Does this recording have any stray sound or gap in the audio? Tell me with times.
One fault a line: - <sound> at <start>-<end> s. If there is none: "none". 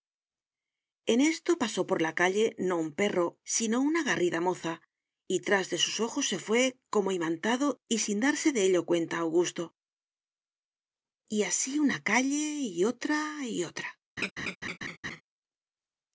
- laugh at 14.2-15.2 s